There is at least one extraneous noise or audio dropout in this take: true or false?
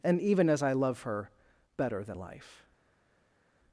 false